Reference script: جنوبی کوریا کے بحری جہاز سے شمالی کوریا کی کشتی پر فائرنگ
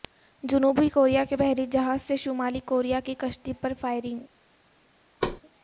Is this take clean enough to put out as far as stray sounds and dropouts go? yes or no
no